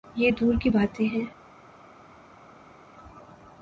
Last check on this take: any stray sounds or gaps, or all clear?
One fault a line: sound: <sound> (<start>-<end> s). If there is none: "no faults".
no faults